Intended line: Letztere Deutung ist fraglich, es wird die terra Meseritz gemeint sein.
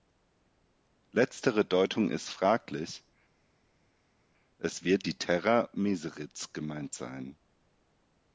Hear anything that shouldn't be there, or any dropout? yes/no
no